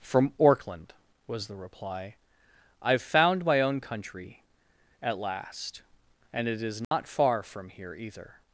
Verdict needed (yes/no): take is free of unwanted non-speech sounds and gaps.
no